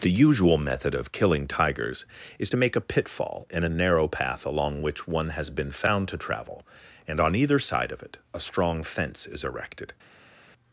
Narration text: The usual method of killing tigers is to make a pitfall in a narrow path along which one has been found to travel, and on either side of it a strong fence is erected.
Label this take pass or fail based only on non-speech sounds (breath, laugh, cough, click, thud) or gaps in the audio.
pass